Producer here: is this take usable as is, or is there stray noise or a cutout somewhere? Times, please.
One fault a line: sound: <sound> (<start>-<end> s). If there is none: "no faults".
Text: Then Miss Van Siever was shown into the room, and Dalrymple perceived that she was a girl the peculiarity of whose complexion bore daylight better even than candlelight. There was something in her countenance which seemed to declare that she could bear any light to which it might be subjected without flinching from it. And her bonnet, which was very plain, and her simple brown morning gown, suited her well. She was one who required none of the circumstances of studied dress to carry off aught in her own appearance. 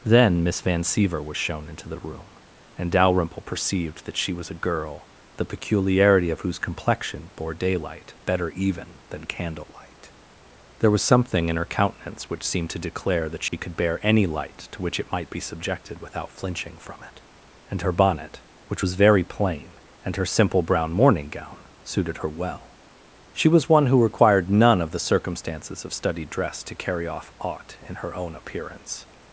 sound: dropout (13.5-13.5 s)